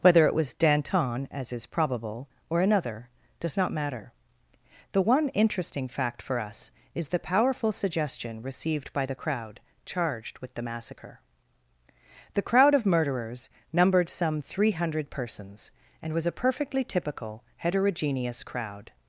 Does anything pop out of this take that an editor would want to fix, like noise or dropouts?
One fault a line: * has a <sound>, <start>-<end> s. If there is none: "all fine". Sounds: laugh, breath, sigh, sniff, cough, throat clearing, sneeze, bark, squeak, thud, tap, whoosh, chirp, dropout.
all fine